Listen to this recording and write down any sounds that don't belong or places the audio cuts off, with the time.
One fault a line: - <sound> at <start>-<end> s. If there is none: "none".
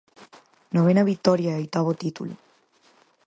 none